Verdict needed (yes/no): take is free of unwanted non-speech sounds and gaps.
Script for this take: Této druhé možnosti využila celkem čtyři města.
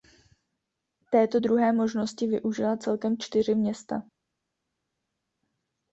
yes